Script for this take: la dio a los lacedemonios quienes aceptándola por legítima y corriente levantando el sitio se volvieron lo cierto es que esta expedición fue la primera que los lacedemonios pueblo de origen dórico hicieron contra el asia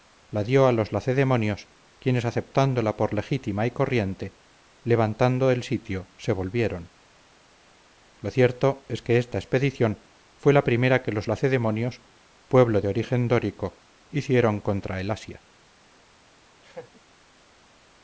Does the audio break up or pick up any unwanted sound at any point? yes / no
yes